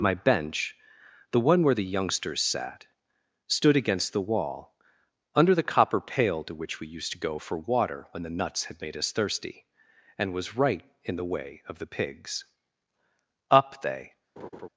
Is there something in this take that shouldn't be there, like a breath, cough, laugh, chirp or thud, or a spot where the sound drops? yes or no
yes